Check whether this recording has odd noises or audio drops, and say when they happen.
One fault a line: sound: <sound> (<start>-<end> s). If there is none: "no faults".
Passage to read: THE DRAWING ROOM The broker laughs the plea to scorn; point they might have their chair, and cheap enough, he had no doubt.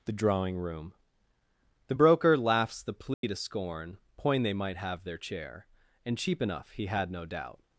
sound: dropout (3.1-3.2 s)